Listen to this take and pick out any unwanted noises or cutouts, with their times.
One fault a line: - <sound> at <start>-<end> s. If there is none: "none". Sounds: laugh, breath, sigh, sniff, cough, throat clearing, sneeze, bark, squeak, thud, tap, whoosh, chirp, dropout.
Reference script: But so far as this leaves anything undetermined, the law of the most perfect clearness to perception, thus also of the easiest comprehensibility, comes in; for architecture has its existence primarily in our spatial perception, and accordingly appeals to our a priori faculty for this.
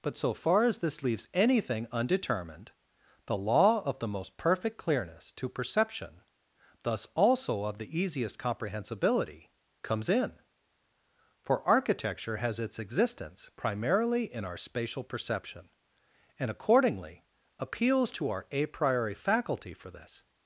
none